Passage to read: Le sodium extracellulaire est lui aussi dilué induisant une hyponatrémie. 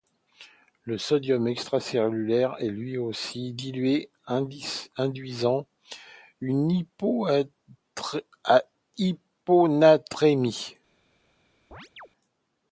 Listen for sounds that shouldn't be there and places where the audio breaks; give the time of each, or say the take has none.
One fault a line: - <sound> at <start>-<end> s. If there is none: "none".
- chirp at 11.7-12.1 s